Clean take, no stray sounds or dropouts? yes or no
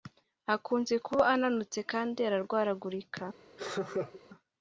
no